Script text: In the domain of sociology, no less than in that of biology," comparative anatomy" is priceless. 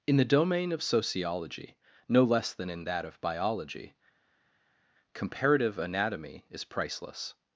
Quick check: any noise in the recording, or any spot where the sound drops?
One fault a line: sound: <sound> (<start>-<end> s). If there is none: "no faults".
no faults